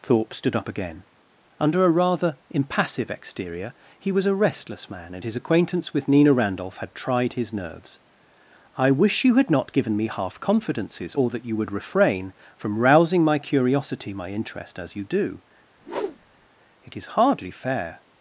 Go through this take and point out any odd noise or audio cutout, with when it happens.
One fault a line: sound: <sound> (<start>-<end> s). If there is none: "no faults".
sound: whoosh (15.8-16.5 s)